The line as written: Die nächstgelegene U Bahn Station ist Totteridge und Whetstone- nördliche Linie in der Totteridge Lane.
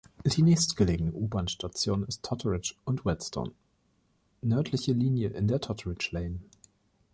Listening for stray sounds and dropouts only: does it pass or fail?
pass